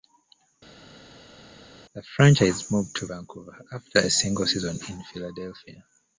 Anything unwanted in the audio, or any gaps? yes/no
no